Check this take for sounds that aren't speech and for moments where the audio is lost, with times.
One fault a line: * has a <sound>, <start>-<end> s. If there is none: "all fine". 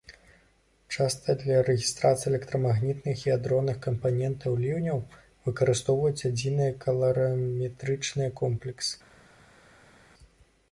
all fine